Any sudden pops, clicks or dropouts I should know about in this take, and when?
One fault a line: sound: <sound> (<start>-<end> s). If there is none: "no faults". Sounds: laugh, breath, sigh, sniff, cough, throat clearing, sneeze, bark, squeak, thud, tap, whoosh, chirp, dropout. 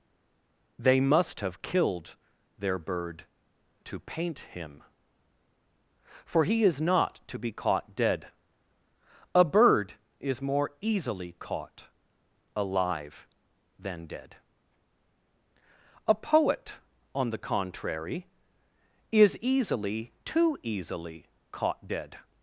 no faults